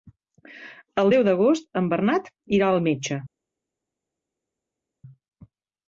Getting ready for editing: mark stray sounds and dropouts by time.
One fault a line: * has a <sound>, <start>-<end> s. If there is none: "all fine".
all fine